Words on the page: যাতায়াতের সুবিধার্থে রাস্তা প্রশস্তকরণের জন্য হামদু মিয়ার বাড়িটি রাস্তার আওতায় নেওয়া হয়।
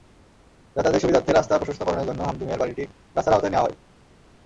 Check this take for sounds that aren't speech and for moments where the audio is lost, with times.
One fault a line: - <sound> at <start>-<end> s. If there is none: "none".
none